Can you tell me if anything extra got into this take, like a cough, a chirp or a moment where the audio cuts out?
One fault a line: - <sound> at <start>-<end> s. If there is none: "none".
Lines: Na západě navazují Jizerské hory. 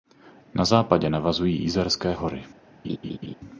- laugh at 2.8-3.4 s